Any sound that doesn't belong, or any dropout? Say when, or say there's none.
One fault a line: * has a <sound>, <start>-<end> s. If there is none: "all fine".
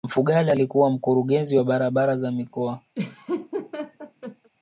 * has a laugh, 2.9-4.5 s